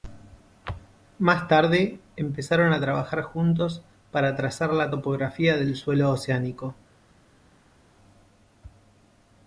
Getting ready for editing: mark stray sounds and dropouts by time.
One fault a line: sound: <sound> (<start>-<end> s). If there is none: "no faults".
no faults